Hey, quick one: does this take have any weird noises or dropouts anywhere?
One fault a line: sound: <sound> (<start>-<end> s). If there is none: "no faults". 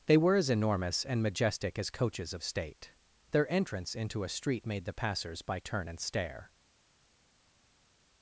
no faults